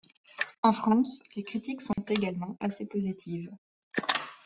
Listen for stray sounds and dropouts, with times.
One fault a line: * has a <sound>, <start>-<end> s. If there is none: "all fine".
* has a dropout, 1.9-2.0 s